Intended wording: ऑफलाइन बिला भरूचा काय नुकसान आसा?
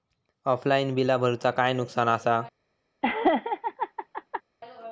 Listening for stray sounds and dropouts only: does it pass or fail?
fail